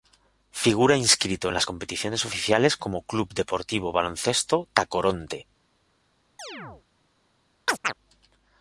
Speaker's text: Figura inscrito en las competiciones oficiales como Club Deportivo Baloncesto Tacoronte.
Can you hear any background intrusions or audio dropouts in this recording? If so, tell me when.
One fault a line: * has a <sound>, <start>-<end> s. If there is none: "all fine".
* has a chirp, 6.4-6.8 s
* has a chirp, 7.7-7.9 s